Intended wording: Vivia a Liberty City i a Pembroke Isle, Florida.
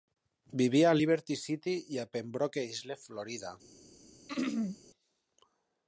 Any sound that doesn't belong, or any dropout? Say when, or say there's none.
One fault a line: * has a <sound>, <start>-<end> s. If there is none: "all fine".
* has a throat clearing, 4.3-4.8 s